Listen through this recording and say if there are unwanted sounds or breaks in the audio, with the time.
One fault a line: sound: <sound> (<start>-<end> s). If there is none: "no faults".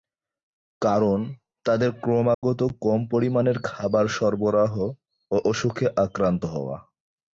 sound: dropout (2.3-2.4 s)